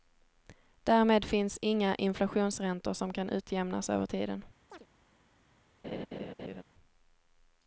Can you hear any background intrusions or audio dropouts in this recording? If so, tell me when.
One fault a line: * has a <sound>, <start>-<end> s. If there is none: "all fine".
* has a chirp, 4.7-4.9 s
* has a laugh, 5.8-6.6 s